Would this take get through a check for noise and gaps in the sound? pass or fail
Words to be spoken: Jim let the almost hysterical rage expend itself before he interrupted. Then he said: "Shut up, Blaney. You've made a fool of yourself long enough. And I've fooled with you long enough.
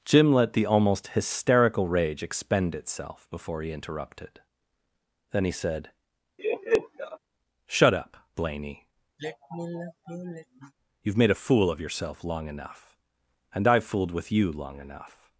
fail